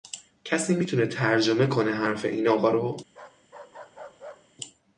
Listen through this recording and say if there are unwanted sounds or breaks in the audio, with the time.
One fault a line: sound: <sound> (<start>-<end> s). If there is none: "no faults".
sound: bark (3.1-4.6 s)